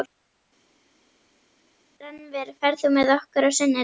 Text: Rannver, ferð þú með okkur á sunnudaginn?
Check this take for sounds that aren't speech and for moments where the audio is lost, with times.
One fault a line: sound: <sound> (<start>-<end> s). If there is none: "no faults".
no faults